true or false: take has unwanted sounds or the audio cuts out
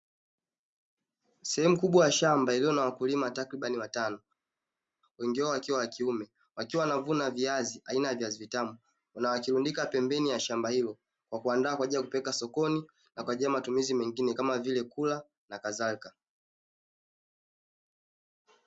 false